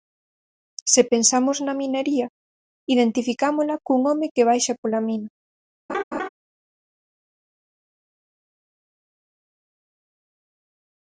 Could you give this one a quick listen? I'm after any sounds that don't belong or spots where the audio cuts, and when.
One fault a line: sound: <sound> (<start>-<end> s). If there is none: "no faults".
sound: laugh (5.9-6.3 s)